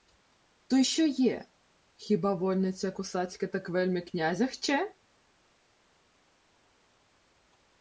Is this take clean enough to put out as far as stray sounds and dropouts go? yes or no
yes